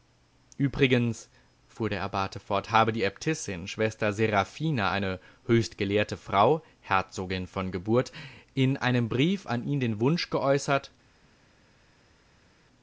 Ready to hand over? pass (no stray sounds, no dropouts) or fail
pass